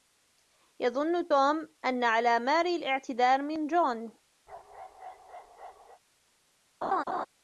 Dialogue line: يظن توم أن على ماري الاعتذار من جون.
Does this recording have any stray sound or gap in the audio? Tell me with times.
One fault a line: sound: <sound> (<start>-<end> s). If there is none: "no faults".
sound: bark (4.5-6.0 s)
sound: laugh (6.8-7.3 s)